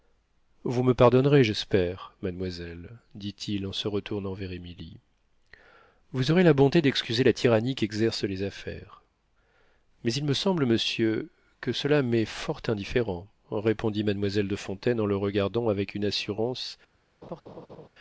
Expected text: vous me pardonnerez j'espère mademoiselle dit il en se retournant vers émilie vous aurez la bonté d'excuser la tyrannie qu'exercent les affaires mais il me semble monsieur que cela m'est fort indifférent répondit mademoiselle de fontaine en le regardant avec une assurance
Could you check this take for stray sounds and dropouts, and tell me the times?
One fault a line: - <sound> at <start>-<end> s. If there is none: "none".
- laugh at 17.2-17.9 s